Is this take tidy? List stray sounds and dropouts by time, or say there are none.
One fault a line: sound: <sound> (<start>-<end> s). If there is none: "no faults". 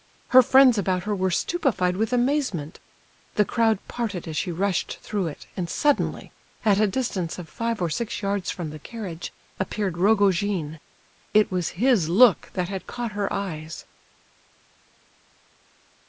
no faults